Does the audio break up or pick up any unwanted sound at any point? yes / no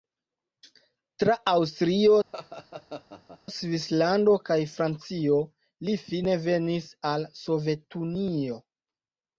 yes